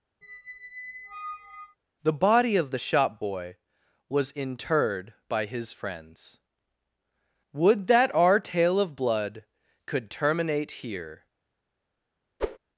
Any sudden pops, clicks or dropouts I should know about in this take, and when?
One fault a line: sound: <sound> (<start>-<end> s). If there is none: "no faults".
sound: squeak (0.2-1.8 s)
sound: whoosh (12.4-12.6 s)